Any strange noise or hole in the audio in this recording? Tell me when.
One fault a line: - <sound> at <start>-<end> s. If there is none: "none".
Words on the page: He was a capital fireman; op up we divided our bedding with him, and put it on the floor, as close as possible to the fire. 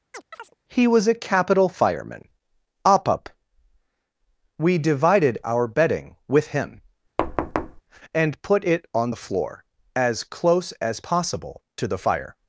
- chirp at 0.1-0.5 s
- thud at 7.2-7.8 s